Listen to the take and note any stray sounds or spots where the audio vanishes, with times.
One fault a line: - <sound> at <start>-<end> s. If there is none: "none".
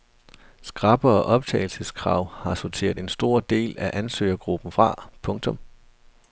none